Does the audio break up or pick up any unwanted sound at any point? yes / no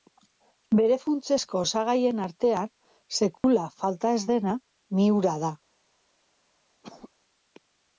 yes